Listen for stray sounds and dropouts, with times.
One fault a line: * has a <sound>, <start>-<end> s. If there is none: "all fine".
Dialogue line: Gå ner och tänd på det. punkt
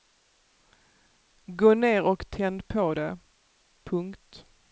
all fine